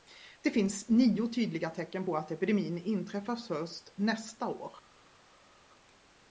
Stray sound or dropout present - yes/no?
no